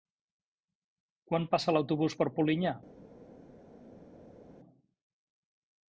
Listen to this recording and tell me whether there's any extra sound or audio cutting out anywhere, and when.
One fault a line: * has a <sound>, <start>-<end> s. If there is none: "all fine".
all fine